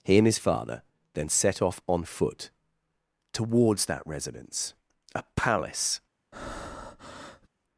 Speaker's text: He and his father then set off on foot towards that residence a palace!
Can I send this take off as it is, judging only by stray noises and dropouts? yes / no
no